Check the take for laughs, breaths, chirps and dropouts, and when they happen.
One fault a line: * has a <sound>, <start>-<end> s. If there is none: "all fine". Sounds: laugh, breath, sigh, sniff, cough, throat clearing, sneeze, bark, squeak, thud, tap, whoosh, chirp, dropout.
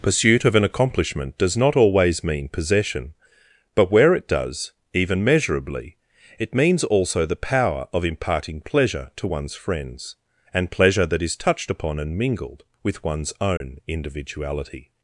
* has a dropout, 13.6-13.6 s